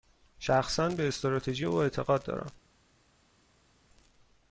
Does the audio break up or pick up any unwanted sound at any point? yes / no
no